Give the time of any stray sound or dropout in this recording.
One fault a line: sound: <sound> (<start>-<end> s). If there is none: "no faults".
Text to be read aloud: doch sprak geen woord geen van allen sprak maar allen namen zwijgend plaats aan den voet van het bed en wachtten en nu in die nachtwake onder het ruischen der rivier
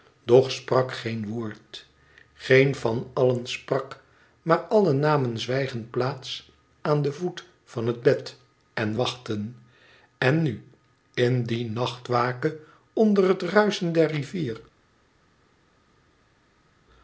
no faults